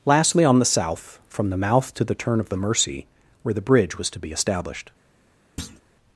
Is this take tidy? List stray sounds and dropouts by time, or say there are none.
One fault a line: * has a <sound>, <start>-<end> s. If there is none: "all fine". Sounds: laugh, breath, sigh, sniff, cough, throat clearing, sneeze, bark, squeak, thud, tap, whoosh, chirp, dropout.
* has a thud, 5.6-5.8 s